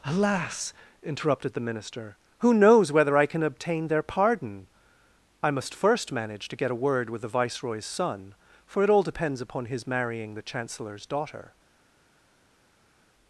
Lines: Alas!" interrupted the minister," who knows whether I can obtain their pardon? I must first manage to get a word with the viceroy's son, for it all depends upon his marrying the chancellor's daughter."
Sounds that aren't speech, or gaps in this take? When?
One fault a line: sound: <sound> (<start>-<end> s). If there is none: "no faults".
no faults